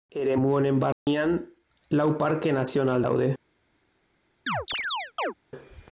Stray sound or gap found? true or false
true